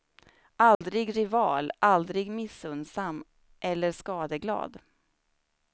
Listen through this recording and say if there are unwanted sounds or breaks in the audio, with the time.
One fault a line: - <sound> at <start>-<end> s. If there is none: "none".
- dropout at 0.7-0.8 s